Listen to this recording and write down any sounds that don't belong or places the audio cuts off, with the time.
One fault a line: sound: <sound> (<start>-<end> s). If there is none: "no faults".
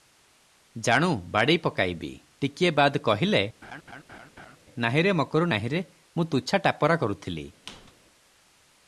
sound: laugh (3.6-4.6 s)
sound: squeak (7.7-7.9 s)